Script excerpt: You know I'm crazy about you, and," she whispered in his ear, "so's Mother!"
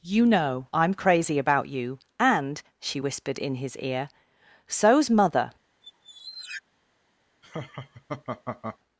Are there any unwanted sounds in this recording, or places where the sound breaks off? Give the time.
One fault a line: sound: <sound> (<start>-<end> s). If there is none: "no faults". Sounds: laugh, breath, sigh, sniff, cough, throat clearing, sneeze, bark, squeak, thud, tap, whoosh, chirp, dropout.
sound: squeak (5.8-6.6 s)
sound: laugh (7.4-8.8 s)